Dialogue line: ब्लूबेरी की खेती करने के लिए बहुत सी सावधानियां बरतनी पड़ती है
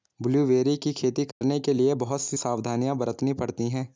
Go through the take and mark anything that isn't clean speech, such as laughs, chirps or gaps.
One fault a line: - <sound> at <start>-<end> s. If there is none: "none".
- dropout at 1.3-1.4 s